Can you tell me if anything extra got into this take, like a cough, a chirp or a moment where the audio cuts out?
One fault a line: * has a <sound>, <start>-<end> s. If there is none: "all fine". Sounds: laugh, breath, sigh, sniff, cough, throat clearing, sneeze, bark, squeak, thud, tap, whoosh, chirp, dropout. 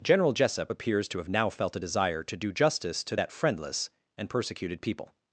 all fine